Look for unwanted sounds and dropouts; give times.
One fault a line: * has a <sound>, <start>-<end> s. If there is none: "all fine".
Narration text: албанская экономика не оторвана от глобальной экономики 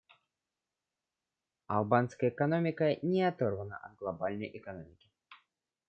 all fine